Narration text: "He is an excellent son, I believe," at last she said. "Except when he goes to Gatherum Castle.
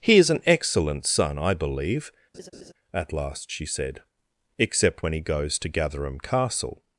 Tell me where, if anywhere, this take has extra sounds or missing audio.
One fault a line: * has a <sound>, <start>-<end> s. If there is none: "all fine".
* has a laugh, 2.3-2.7 s